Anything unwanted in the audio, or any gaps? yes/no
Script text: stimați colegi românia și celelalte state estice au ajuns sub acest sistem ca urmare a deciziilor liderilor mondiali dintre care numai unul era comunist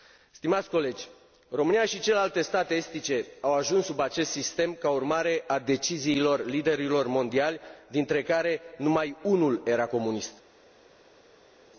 no